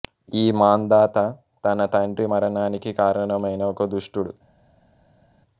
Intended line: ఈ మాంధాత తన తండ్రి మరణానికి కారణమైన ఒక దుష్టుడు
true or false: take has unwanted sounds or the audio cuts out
false